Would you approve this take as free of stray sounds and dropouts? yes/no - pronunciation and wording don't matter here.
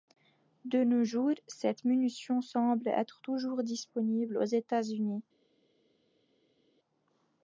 yes